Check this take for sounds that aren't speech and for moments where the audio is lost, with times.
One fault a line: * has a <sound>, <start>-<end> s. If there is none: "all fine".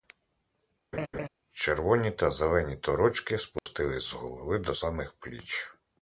* has a laugh, 0.9-1.3 s
* has a dropout, 3.6-3.7 s